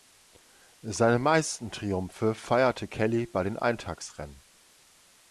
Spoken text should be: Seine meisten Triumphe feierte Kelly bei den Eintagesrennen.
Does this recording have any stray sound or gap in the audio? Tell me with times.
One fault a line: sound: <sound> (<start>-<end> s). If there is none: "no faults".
no faults